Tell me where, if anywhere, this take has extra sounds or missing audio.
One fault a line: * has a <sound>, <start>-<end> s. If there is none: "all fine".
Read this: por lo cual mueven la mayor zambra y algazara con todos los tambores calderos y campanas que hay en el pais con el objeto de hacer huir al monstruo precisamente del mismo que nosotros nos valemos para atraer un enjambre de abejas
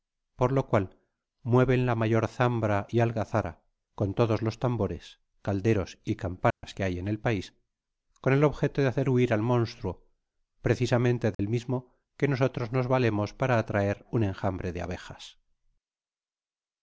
* has a dropout, 6.5-6.6 s
* has a dropout, 11.3-11.4 s